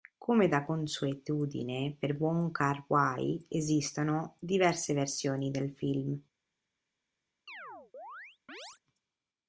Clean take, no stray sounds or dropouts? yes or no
no